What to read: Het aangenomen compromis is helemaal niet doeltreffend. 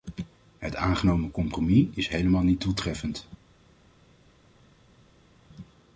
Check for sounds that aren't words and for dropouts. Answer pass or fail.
pass